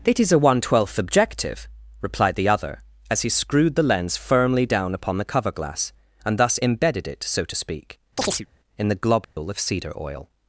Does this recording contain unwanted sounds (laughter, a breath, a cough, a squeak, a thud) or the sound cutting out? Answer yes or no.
yes